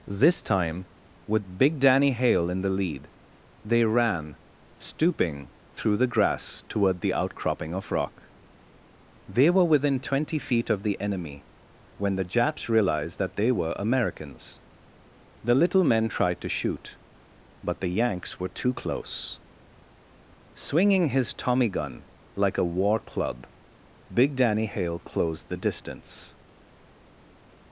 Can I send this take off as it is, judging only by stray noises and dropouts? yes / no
yes